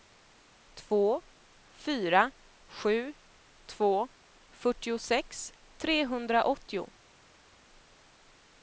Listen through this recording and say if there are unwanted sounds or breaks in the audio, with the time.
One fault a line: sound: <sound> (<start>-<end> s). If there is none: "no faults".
no faults